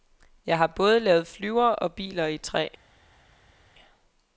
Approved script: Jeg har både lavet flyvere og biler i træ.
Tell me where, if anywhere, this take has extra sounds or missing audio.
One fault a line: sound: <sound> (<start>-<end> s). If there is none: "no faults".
no faults